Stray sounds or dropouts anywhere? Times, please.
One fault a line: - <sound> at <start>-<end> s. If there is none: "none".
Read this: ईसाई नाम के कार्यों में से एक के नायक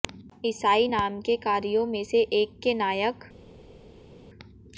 none